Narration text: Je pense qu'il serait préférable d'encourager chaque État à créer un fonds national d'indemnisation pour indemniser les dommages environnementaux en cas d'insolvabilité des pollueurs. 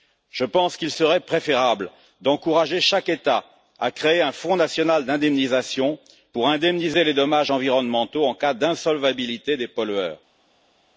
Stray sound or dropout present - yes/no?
no